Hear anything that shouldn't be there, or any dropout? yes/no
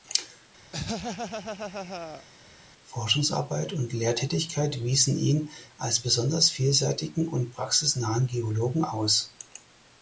yes